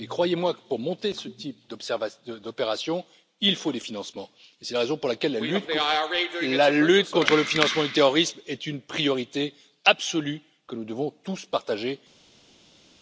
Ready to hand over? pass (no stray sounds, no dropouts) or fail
pass